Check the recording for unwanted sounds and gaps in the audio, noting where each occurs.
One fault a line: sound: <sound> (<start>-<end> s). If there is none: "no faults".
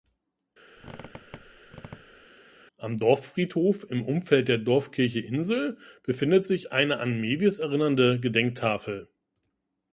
sound: squeak (0.8-2.3 s)